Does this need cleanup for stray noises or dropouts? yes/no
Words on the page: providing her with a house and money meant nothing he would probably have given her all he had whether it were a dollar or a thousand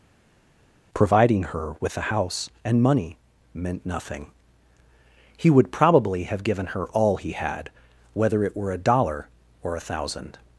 no